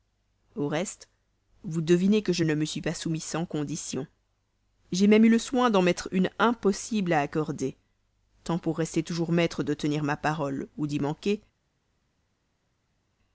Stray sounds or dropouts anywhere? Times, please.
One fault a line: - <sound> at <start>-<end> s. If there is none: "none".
none